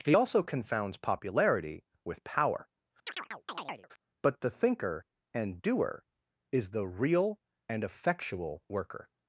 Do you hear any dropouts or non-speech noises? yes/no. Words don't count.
yes